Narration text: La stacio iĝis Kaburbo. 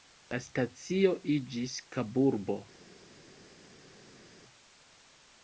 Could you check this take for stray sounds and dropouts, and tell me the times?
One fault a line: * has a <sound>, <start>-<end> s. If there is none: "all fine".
all fine